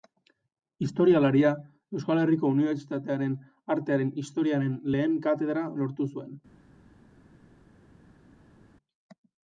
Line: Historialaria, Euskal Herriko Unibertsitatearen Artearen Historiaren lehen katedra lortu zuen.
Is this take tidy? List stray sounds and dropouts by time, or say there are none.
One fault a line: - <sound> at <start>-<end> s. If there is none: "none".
none